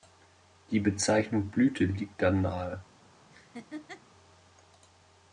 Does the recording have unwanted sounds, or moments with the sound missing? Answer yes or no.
yes